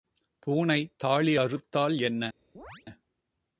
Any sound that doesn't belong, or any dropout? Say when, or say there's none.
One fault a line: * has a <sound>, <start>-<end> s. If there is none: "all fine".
* has a chirp, 2.5-2.9 s